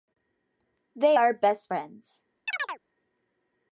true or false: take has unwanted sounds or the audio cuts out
true